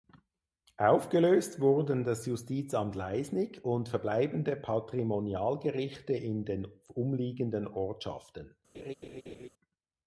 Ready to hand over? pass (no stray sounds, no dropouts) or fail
fail